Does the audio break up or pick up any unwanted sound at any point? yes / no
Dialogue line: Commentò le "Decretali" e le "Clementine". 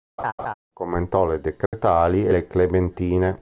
yes